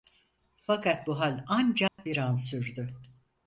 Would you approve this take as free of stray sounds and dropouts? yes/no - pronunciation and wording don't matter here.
no